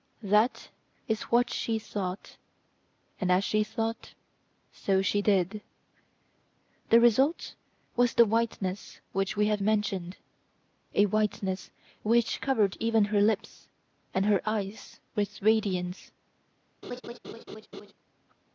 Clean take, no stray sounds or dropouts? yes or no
no